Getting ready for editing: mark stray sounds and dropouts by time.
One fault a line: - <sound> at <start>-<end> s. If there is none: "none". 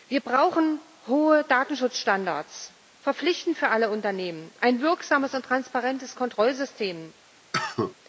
- cough at 7.5-8.0 s